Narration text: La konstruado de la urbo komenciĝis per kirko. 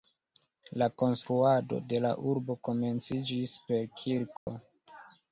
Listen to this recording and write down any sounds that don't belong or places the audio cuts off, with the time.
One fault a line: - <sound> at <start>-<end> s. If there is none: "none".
- dropout at 4.4-4.5 s